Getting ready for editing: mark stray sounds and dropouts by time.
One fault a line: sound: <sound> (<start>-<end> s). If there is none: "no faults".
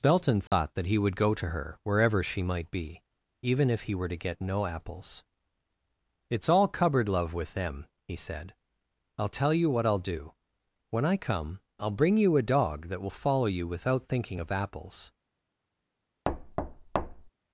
sound: dropout (0.5-0.5 s)
sound: thud (16.2-17.3 s)